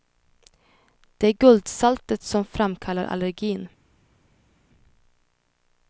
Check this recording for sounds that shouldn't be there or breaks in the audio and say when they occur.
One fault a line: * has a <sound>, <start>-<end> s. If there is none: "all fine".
all fine